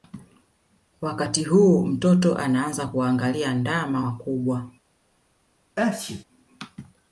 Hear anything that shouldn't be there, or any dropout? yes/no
yes